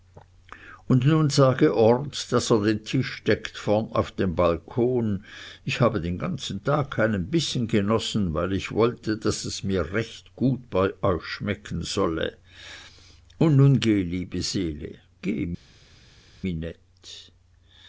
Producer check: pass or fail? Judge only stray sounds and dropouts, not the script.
pass